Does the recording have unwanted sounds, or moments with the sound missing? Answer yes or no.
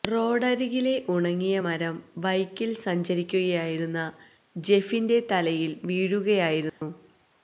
yes